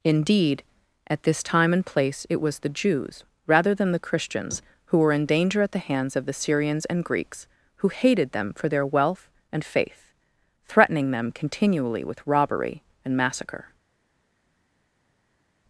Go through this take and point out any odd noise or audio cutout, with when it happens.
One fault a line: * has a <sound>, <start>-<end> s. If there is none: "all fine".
all fine